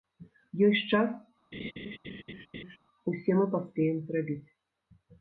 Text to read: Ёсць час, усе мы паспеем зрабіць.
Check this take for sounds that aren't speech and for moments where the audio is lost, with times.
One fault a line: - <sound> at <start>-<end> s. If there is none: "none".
- laugh at 1.5-2.8 s